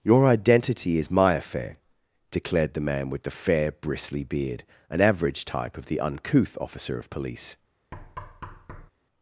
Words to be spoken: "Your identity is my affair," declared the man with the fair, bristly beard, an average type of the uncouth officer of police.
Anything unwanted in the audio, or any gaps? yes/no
yes